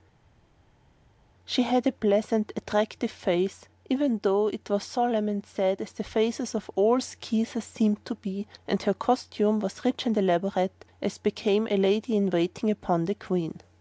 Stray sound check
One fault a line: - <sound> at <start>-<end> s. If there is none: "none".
none